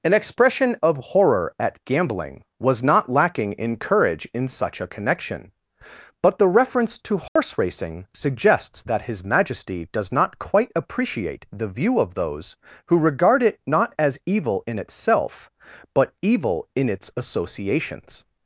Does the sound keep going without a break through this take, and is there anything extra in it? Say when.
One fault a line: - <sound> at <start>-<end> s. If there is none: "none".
- dropout at 7.3-7.4 s